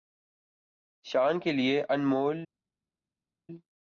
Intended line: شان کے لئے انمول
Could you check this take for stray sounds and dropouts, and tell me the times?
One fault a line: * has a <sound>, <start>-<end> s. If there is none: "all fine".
all fine